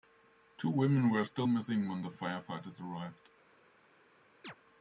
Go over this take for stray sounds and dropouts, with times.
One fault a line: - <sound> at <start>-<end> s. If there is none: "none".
- chirp at 4.4-4.5 s